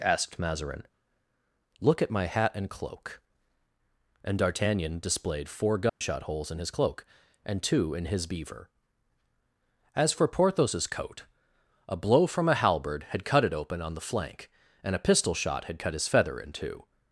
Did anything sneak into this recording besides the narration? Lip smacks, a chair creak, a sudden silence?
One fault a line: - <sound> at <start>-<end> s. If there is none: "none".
- dropout at 5.9-6.0 s